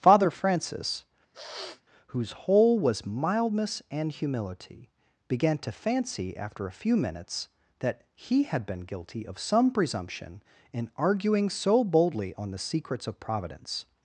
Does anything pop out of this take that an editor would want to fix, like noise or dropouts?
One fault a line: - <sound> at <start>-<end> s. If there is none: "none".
- sniff at 1.3-1.8 s